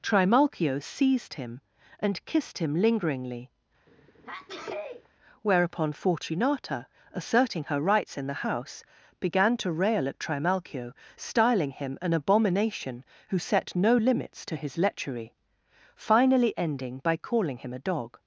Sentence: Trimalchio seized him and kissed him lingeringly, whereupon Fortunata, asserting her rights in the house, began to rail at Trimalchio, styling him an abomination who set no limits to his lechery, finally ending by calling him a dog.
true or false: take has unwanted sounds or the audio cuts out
true